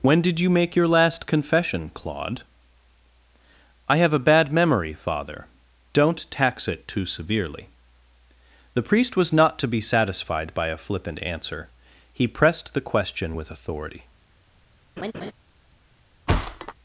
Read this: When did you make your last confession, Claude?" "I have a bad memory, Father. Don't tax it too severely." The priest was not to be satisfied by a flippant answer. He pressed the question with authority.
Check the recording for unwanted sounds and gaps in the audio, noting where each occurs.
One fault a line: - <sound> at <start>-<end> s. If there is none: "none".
- laugh at 15.0-15.3 s
- thud at 16.3-16.7 s